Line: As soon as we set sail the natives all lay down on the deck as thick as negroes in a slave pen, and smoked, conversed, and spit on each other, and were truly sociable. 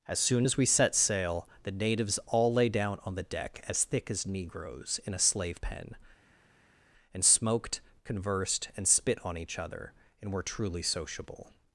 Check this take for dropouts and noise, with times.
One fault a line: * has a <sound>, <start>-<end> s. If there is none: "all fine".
all fine